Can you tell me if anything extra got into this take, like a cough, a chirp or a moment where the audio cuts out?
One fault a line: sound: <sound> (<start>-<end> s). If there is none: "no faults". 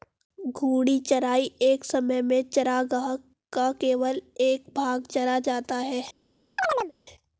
sound: chirp (6.6-6.9 s)